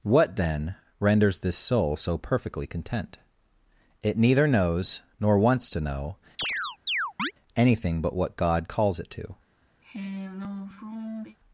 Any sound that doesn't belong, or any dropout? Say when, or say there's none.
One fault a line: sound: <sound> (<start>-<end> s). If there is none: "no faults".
sound: chirp (6.4-7.3 s)
sound: sigh (9.8-11.4 s)